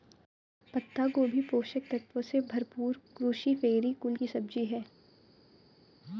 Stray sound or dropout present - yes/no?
no